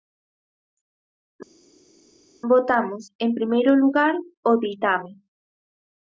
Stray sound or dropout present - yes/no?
no